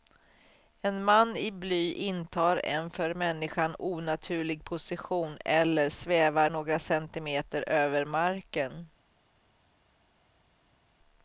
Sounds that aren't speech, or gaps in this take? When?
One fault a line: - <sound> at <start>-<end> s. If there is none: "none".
none